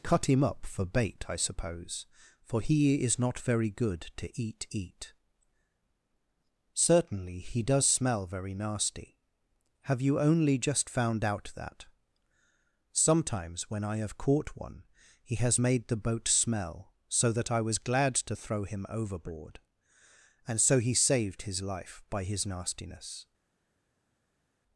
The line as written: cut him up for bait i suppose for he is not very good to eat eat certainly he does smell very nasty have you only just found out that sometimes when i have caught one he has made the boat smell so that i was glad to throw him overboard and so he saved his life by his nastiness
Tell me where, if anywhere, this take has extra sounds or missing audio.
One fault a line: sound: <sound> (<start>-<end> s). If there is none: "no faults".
no faults